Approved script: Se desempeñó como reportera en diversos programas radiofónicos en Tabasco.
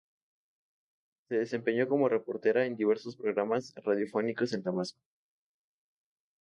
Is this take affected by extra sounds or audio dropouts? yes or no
no